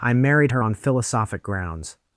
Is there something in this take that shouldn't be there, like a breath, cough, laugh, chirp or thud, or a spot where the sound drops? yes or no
no